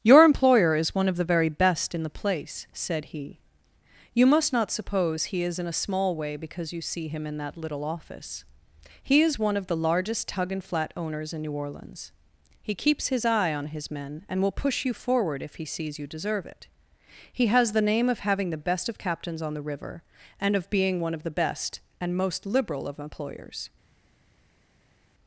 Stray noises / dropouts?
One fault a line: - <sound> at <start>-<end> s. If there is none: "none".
none